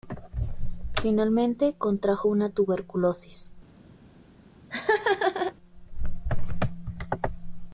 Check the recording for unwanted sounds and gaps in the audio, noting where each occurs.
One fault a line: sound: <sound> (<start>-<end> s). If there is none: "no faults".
sound: laugh (4.7-5.5 s)